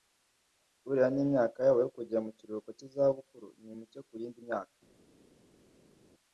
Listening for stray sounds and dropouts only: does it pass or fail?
pass